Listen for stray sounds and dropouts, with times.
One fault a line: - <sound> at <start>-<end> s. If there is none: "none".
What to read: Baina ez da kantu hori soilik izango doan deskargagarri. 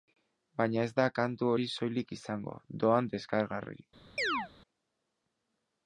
- chirp at 4.2-4.5 s